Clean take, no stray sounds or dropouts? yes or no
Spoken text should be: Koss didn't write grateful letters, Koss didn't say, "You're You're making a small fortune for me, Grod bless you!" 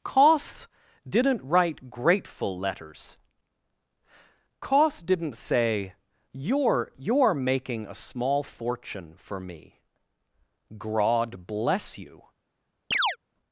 no